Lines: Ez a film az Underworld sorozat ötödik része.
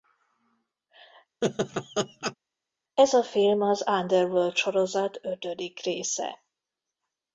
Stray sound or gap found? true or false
true